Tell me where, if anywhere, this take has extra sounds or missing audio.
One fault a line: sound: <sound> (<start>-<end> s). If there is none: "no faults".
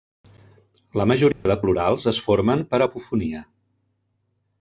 sound: dropout (1.3-1.5 s)